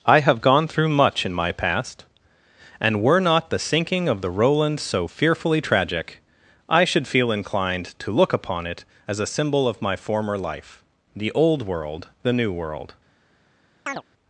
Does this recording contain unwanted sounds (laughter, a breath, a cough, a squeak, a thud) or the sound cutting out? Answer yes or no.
yes